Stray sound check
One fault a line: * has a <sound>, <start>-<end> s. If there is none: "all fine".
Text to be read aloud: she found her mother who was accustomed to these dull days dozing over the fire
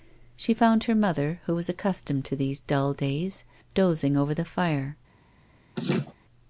* has a laugh, 5.8-6.1 s